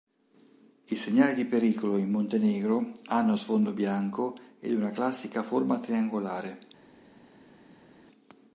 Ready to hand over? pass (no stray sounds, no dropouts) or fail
pass